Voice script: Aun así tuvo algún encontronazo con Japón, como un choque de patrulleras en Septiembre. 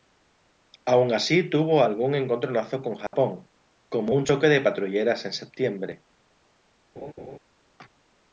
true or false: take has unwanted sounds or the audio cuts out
true